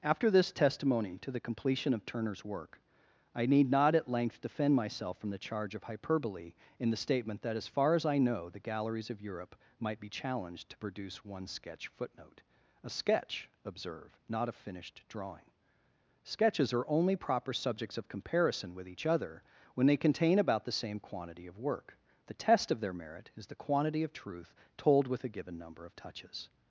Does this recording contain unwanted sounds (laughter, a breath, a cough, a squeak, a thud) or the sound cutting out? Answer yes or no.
no